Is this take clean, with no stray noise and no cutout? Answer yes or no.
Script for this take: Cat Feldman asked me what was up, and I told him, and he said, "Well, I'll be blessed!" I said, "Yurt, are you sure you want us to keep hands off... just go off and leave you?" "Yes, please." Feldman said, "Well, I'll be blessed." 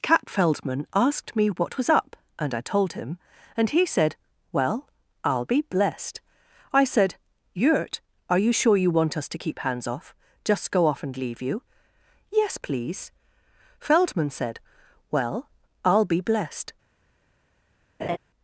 no